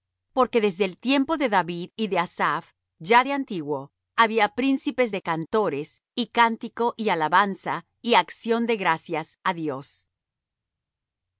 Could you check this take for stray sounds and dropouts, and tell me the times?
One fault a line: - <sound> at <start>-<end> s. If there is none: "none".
none